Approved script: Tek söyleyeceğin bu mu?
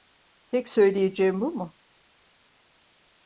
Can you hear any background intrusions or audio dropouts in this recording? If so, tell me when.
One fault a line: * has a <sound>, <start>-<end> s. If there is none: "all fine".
all fine